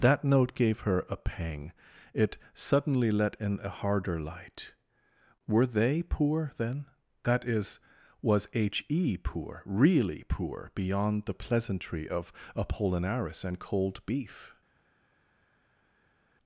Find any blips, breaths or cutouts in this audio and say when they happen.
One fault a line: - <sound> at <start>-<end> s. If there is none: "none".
none